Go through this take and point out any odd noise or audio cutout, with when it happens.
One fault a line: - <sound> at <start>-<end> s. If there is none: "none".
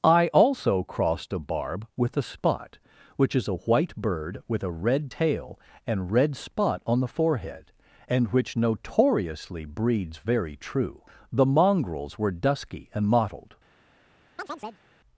- chirp at 14.4-14.8 s